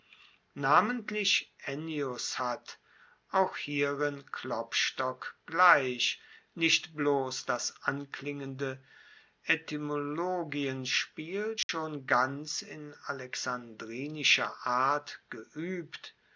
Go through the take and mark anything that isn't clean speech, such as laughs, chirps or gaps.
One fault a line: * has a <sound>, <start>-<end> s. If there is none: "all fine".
* has a dropout, 11.6-11.7 s